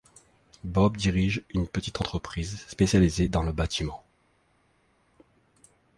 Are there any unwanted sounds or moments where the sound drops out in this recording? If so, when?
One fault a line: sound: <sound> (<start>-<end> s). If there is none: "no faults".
no faults